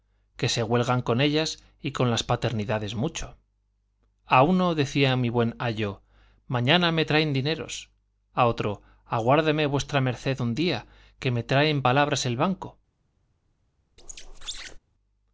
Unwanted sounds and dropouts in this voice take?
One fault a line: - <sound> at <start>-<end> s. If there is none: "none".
- squeak at 14.0-14.8 s